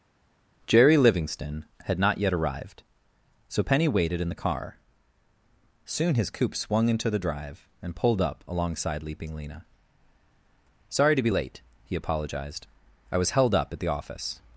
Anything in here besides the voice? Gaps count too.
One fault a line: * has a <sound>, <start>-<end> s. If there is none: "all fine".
all fine